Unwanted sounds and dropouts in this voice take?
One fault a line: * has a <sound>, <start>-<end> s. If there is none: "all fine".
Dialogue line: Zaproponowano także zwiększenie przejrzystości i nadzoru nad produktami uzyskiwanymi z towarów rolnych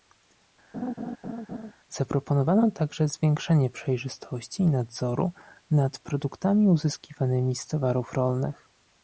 * has a laugh, 0.7-1.7 s